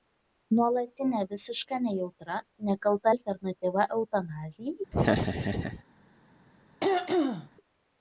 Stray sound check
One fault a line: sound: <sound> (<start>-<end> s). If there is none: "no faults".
sound: laugh (4.9-5.8 s)
sound: throat clearing (6.8-7.5 s)